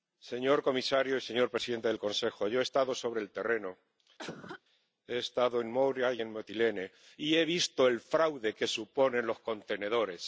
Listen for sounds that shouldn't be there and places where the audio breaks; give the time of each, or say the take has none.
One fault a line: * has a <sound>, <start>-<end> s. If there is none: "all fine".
* has a cough, 4.2-4.6 s